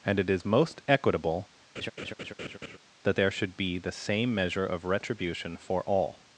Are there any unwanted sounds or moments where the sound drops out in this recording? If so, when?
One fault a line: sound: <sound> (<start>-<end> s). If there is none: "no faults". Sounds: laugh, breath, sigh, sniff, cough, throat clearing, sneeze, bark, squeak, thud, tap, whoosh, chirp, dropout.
sound: laugh (1.8-2.8 s)